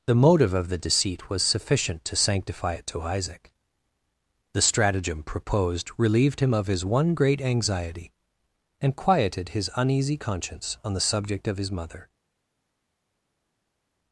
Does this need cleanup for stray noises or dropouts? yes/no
no